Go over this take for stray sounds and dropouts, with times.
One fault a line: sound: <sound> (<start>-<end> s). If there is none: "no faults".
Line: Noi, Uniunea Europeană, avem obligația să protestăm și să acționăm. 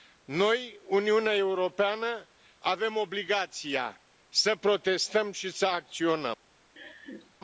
sound: laugh (6.8-7.3 s)